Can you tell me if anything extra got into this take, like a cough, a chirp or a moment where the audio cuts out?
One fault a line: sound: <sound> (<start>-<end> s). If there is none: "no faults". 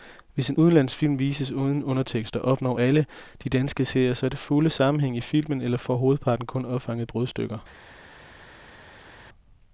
no faults